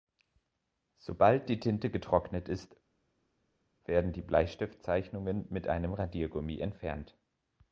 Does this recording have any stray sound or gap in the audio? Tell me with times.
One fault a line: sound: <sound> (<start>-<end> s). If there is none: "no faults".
no faults